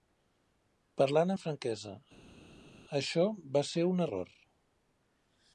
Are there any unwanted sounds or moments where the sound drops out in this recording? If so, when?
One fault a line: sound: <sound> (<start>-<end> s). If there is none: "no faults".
no faults